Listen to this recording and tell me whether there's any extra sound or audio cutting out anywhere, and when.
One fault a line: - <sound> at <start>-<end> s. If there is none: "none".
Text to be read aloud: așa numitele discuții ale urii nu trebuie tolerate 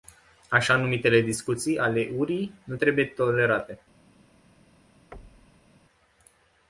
- thud at 5.1-5.7 s